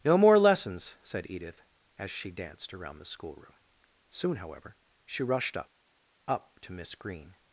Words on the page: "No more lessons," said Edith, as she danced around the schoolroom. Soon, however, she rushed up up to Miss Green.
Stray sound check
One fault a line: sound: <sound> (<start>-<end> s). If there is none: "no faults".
no faults